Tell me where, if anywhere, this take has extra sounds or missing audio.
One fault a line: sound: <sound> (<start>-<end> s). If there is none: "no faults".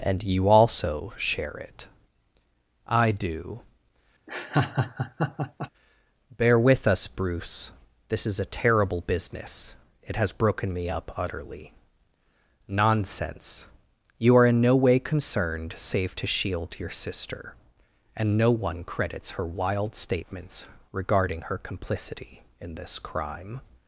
sound: laugh (4.3-5.7 s)